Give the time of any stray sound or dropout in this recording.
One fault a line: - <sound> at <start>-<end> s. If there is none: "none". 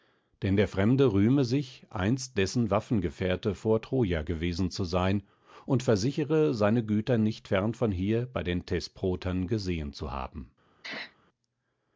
- sneeze at 10.8-11.2 s